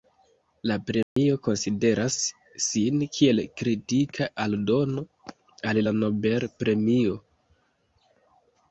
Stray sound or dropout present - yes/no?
yes